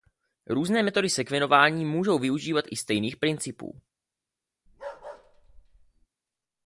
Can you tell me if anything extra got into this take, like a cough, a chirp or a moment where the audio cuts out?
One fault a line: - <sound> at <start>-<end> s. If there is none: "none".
- bark at 4.7-6.1 s